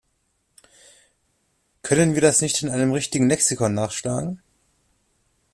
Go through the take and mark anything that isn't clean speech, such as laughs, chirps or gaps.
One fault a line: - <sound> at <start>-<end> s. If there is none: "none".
none